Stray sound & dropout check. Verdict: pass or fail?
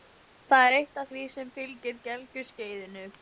pass